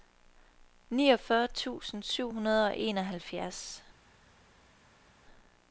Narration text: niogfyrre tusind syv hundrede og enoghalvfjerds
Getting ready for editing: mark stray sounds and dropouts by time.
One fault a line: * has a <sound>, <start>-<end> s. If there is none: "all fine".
all fine